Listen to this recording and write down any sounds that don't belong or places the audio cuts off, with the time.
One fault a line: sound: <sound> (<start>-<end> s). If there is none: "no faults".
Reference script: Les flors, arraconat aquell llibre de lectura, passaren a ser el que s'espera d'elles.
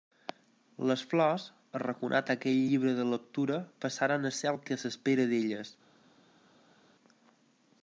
no faults